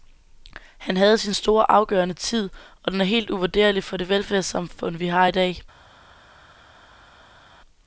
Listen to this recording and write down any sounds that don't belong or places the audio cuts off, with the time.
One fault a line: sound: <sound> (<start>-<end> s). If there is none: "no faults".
no faults